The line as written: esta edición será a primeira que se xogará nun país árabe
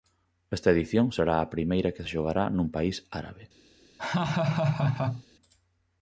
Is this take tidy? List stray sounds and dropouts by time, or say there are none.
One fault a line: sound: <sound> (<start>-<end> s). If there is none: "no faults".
sound: laugh (4.0-5.2 s)